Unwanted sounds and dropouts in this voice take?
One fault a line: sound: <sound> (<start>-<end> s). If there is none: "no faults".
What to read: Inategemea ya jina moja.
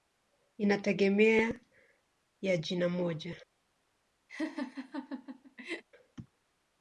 sound: laugh (4.3-5.8 s)